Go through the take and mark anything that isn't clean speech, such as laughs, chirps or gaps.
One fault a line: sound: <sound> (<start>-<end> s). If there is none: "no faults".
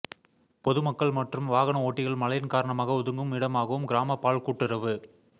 no faults